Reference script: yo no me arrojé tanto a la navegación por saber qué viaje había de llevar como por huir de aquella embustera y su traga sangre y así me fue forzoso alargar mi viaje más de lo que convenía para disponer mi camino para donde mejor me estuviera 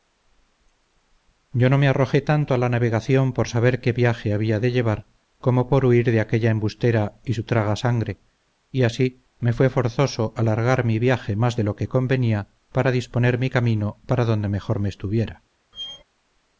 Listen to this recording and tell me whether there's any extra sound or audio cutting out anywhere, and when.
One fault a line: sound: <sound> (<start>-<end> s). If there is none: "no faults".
sound: squeak (15.7-16.0 s)